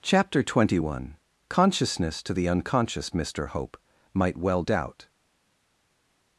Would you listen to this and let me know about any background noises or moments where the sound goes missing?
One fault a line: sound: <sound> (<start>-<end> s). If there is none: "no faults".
no faults